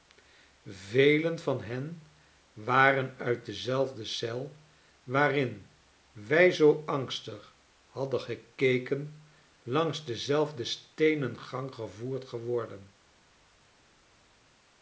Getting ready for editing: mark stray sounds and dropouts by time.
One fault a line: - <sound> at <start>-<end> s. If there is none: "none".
none